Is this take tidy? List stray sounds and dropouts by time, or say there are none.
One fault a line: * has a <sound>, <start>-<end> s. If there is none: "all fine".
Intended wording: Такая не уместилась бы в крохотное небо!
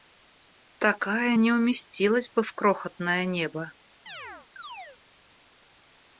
* has a chirp, 4.1-5.0 s